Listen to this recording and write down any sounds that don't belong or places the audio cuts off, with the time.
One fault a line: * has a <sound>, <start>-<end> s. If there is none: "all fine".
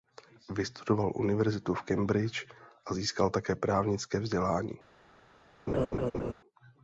* has a laugh, 5.7-6.3 s